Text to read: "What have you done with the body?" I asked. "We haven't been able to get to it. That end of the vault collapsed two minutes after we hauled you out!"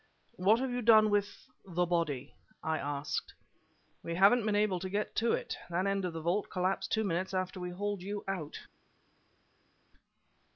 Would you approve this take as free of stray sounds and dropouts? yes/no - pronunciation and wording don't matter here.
yes